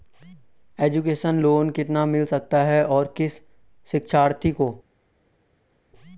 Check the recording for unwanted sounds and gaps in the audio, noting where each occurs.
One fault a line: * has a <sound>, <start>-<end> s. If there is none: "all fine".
all fine